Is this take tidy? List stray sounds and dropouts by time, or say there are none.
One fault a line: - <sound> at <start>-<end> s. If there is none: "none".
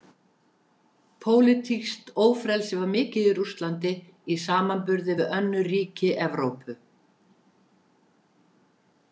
none